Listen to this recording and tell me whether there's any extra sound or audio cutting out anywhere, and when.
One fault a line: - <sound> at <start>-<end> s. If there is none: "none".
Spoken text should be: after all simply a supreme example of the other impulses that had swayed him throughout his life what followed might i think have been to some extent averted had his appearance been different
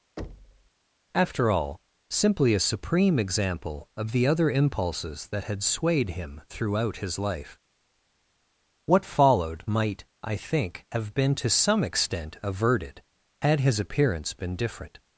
- thud at 0.2-0.7 s